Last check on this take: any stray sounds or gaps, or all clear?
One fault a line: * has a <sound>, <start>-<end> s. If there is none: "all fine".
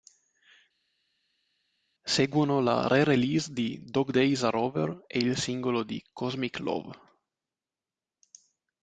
all fine